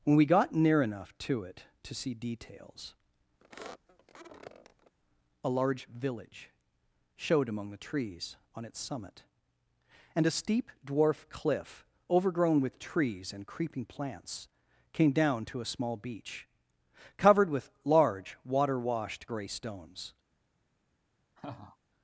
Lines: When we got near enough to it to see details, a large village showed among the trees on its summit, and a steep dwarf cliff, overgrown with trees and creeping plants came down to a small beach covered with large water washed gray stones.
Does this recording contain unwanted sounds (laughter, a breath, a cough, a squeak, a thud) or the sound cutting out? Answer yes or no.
yes